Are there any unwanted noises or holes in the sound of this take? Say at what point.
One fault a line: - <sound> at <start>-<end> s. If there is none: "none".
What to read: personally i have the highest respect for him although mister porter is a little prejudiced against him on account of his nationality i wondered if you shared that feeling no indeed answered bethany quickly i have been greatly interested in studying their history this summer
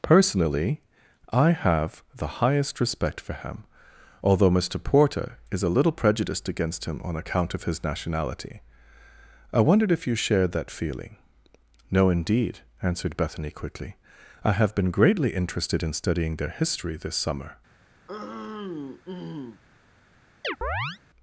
- throat clearing at 18.1-19.6 s
- chirp at 20.4-21.0 s